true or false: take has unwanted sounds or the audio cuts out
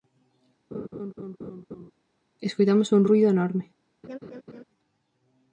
true